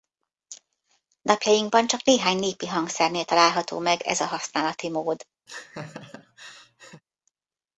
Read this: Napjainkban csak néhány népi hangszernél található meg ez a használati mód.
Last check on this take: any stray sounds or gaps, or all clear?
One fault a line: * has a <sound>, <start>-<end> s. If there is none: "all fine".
* has a laugh, 5.5-7.0 s